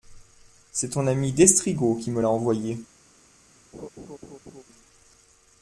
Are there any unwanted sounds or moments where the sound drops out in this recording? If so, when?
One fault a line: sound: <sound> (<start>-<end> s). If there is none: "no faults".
sound: laugh (3.7-4.6 s)